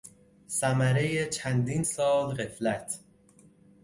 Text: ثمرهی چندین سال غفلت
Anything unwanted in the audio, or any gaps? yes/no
no